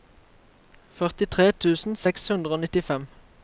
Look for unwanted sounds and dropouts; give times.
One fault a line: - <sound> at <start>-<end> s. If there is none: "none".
none